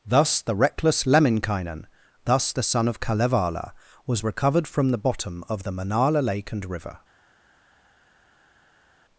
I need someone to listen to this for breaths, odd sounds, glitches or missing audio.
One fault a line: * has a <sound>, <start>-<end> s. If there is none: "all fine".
all fine